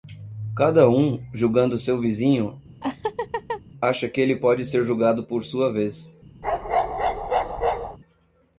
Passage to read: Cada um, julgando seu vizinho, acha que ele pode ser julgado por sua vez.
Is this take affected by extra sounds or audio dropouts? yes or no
yes